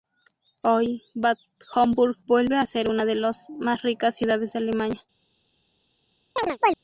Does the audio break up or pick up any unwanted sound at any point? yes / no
yes